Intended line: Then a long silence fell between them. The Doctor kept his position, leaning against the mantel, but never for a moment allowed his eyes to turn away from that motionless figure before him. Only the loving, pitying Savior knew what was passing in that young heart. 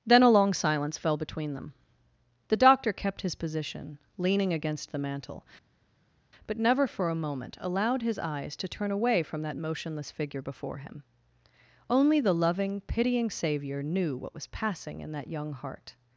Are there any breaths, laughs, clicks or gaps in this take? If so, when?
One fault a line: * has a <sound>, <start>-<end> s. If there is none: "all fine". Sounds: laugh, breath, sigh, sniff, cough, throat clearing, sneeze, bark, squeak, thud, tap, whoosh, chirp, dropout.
all fine